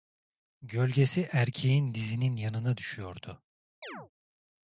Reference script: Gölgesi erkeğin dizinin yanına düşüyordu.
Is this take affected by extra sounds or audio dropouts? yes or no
yes